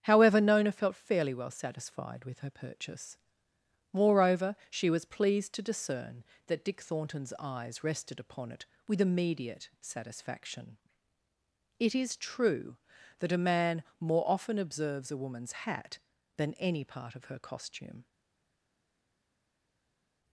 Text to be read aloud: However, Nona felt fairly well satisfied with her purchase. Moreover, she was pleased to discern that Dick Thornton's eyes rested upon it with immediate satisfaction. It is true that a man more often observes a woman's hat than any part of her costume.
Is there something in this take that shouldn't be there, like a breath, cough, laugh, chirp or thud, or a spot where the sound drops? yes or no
no